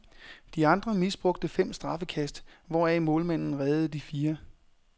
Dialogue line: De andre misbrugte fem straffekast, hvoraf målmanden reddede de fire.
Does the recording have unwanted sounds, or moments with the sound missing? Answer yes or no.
no